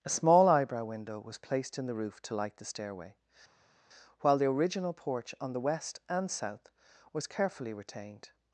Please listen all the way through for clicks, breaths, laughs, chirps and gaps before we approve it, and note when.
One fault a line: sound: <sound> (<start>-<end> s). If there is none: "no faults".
no faults